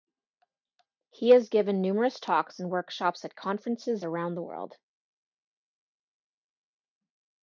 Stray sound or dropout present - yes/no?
no